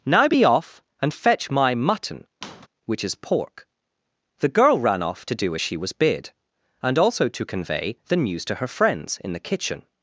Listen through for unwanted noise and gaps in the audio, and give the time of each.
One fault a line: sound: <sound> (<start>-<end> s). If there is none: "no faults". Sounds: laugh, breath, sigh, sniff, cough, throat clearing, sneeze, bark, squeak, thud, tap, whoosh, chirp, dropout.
sound: squeak (2.4-2.7 s)